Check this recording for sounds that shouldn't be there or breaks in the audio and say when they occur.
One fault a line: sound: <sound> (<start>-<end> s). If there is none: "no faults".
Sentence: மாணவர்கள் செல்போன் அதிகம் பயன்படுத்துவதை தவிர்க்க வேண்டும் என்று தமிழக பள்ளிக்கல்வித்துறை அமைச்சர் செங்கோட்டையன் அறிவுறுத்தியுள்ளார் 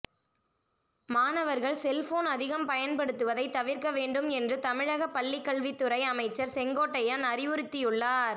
no faults